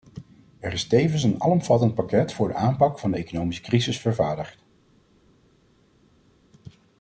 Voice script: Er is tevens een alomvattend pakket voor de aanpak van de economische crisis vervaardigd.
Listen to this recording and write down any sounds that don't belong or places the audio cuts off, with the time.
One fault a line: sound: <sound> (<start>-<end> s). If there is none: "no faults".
no faults